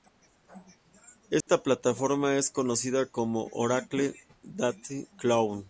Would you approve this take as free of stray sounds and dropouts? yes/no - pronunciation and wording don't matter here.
no